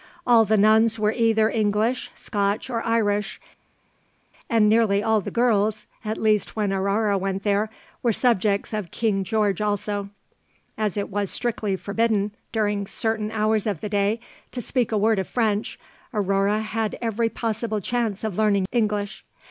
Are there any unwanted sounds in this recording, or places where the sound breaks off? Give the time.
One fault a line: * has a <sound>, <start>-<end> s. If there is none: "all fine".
all fine